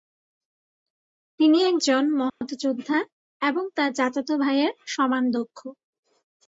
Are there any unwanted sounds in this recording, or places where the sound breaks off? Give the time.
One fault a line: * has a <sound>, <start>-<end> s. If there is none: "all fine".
* has a dropout, 2.3-2.4 s